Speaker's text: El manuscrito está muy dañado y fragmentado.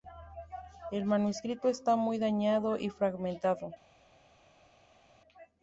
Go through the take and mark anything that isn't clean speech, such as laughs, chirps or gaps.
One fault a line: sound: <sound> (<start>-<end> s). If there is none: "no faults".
no faults